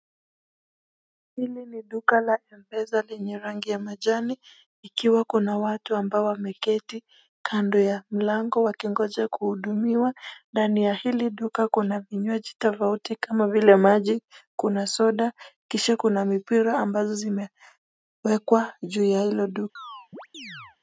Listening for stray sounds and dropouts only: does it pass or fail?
fail